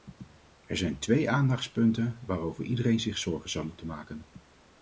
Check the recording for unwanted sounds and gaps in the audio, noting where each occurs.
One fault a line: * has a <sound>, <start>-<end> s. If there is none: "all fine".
all fine